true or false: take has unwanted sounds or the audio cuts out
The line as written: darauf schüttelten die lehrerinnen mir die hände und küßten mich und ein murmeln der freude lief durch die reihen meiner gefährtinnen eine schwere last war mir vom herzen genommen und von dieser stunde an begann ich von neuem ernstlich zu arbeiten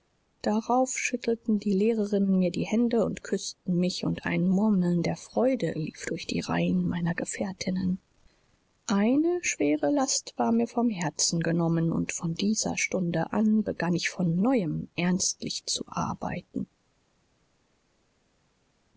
false